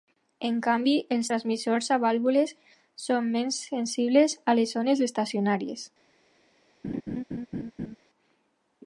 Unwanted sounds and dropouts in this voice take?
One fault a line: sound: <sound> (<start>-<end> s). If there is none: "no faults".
sound: laugh (6.8-8.0 s)